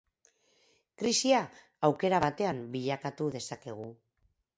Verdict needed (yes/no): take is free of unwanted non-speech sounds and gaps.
yes